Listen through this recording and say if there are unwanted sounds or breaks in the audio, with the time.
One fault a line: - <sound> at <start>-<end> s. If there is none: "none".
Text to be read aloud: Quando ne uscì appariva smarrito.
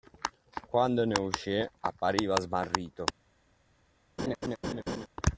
- laugh at 4.2-5.1 s